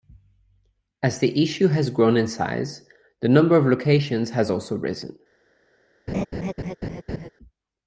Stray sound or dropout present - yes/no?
yes